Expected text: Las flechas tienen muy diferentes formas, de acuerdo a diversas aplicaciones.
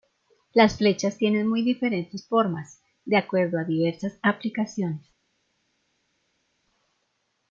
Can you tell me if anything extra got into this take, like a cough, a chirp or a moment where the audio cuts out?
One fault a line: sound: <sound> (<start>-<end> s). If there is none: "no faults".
no faults